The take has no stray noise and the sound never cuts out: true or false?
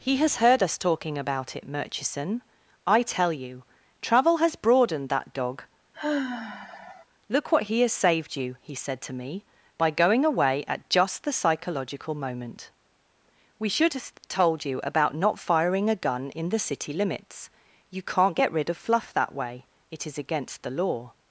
false